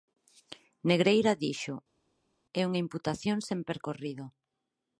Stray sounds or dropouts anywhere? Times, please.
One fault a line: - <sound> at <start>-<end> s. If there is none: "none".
none